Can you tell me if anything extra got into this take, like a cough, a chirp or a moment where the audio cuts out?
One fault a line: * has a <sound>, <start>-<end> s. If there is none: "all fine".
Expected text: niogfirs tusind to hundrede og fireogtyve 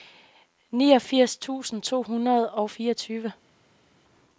all fine